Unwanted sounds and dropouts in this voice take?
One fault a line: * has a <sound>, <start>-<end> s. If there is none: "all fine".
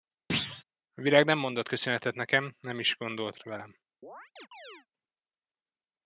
* has a thud, 0.3-0.6 s
* has a chirp, 4.0-4.9 s